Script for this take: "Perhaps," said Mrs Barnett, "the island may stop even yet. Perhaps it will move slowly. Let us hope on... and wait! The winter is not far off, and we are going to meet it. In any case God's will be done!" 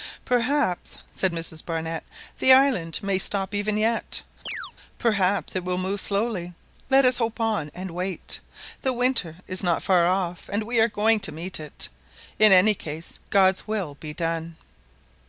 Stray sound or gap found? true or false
true